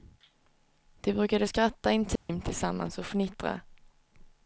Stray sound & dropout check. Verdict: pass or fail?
fail